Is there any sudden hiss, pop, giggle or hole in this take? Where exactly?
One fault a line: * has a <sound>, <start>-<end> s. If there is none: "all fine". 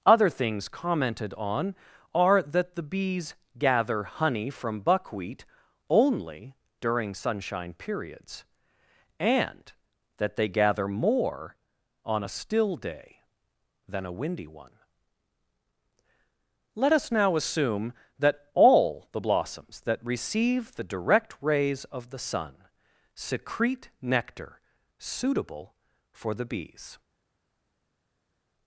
all fine